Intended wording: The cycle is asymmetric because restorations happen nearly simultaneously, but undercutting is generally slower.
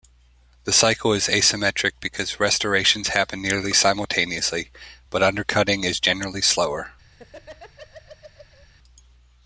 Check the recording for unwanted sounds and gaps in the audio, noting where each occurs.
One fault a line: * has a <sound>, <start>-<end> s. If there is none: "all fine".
* has a laugh, 7.1-8.7 s